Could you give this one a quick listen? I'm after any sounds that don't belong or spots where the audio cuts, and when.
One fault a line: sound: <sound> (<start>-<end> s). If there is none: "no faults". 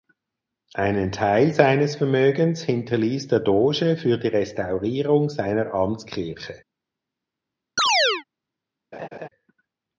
sound: chirp (7.8-8.2 s)
sound: laugh (8.9-9.3 s)